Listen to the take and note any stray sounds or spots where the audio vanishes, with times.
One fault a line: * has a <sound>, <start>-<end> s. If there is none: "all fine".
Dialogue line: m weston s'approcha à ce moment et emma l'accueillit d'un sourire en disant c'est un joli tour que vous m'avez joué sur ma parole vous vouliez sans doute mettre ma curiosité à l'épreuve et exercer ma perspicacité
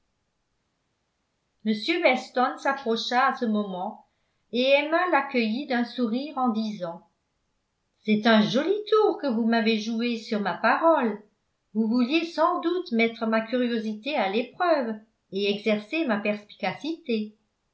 all fine